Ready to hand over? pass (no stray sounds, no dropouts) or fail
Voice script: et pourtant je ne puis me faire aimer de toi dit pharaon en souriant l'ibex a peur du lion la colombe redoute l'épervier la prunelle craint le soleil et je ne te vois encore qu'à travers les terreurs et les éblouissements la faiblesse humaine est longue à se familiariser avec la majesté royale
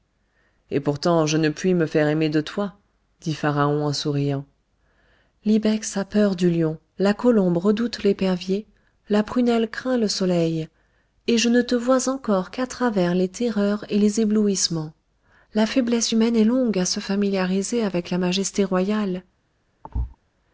fail